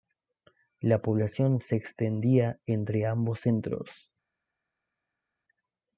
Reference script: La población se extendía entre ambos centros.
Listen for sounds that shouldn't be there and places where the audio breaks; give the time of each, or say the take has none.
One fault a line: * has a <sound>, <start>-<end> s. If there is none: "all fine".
all fine